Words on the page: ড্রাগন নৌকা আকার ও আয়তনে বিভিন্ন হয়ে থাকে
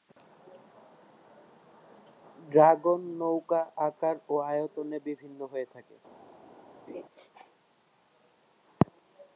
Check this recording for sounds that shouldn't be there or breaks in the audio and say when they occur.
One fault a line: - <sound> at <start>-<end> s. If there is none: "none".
- laugh at 6.9-7.0 s